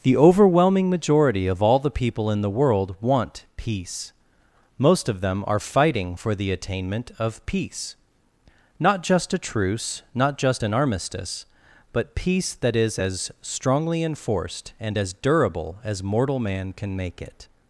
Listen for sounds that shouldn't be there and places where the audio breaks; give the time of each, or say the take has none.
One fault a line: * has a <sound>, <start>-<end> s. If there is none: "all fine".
all fine